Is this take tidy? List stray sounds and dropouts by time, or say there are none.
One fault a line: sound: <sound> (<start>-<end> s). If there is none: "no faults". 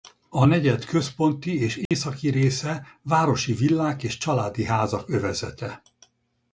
sound: dropout (1.9-1.9 s)